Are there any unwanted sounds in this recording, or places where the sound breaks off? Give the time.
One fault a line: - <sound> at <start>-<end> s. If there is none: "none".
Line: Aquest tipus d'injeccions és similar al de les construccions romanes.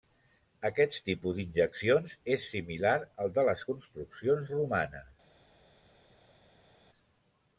none